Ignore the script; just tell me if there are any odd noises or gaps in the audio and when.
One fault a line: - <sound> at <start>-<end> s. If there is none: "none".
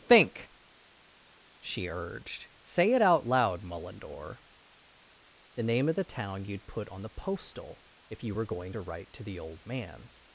none